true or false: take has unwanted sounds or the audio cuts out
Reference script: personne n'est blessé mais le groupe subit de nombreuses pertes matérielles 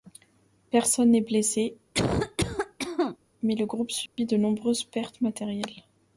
true